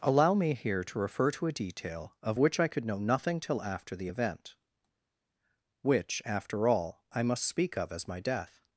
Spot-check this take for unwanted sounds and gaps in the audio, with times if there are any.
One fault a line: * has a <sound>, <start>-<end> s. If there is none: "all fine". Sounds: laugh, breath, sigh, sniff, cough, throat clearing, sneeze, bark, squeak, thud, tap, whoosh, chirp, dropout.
all fine